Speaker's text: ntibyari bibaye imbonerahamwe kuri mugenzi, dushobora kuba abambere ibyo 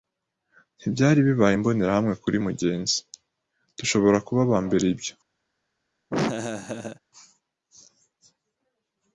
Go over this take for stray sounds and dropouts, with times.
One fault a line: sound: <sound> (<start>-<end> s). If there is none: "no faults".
sound: laugh (6.1-7.0 s)